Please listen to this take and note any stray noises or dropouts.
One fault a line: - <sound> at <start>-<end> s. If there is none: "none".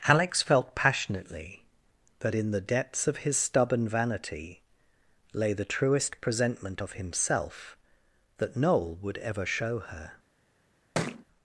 - thud at 10.9-11.2 s